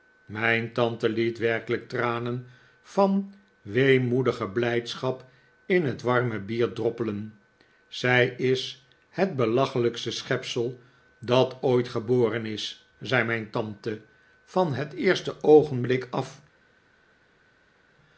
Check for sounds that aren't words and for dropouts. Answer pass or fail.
pass